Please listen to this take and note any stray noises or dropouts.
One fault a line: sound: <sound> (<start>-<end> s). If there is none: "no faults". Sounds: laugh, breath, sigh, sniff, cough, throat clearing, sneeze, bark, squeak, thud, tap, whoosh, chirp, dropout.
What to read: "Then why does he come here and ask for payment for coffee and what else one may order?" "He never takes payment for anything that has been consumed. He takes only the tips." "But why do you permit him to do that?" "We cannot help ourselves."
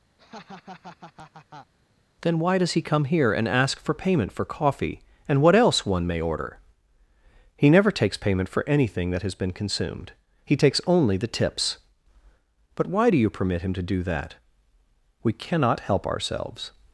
sound: laugh (0.2-1.7 s)